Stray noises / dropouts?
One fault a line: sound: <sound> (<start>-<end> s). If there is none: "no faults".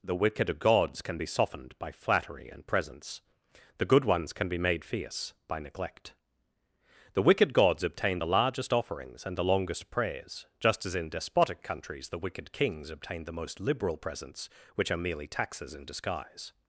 no faults